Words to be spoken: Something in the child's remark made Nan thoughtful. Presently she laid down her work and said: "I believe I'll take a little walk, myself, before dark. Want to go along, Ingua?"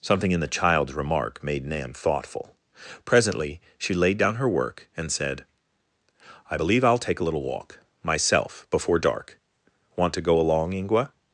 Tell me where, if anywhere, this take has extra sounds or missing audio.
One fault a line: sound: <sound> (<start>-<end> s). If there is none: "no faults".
no faults